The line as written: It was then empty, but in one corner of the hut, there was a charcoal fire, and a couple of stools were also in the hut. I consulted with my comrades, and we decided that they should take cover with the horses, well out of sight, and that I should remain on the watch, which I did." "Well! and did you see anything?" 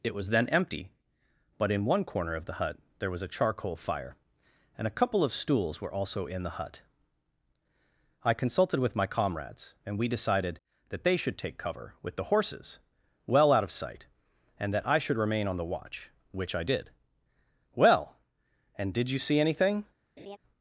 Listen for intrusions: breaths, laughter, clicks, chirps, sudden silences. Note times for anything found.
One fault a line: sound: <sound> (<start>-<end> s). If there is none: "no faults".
sound: laugh (20.2-20.4 s)